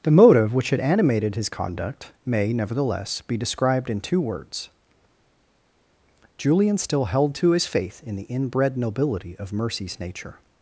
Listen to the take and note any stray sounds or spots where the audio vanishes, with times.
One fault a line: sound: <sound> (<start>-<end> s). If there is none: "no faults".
no faults